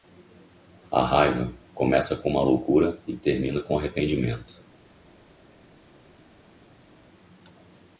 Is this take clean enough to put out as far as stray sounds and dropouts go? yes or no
yes